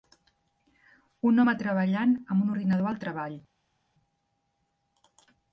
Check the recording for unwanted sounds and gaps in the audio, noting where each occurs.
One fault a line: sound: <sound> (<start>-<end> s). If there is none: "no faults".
no faults